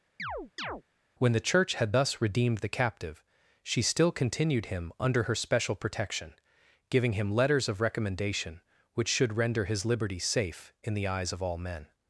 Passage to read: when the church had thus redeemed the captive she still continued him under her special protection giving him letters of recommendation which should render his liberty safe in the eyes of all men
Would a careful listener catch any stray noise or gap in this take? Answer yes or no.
yes